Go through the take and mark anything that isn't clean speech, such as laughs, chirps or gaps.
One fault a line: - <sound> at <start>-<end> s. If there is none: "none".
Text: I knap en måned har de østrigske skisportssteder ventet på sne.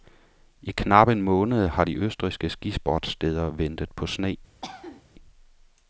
- cough at 4.6-5.0 s